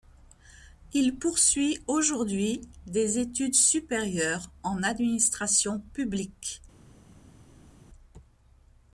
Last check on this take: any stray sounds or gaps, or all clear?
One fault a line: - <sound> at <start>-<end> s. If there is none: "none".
none